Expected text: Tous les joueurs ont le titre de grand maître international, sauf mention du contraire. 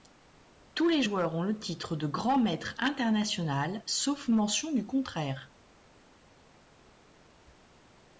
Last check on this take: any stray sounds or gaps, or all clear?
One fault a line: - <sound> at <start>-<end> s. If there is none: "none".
none